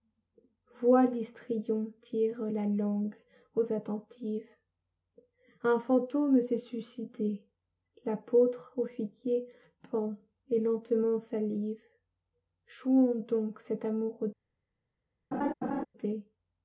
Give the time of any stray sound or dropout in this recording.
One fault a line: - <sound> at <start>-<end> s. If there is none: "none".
- laugh at 15.3-15.9 s